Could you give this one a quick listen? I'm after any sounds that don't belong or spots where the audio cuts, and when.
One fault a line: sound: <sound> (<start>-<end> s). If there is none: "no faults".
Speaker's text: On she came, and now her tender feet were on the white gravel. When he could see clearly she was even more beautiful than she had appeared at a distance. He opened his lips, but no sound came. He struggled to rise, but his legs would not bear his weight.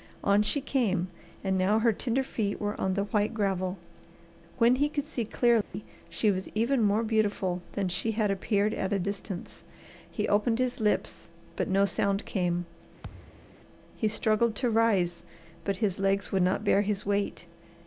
sound: dropout (5.6-5.7 s)
sound: thud (13.0-13.6 s)